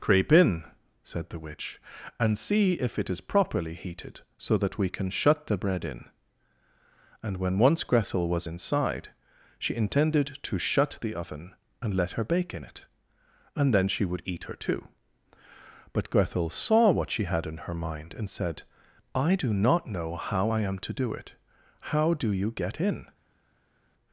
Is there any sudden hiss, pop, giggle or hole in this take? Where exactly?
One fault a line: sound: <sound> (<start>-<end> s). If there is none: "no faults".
no faults